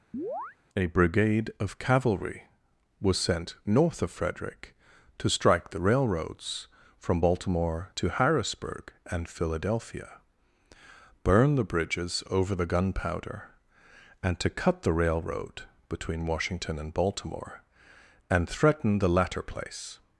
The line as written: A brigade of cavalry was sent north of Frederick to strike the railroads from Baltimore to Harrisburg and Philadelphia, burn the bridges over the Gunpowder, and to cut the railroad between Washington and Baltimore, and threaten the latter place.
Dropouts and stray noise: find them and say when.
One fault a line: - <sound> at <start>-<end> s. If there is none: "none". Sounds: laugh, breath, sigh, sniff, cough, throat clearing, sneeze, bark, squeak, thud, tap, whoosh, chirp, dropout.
- chirp at 0.1-0.6 s